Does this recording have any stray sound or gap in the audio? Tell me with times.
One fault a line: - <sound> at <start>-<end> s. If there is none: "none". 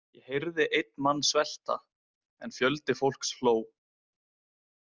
none